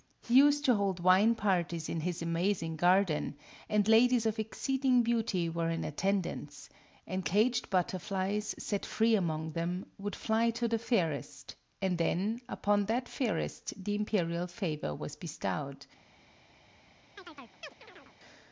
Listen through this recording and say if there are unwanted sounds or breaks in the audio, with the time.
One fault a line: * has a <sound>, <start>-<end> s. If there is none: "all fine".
* has a chirp, 17.2-18.2 s